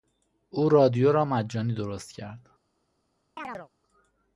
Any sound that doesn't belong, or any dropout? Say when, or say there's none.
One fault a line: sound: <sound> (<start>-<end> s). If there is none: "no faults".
sound: chirp (3.4-3.7 s)